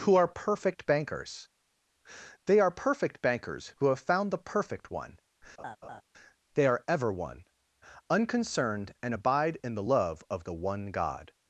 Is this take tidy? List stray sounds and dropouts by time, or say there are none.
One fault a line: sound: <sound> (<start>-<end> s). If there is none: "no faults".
sound: laugh (5.6-6.0 s)